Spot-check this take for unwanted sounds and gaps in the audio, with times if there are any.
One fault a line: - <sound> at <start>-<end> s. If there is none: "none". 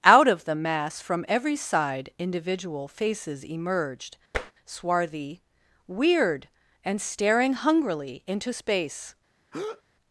- tap at 4.3-4.5 s
- breath at 9.5-9.8 s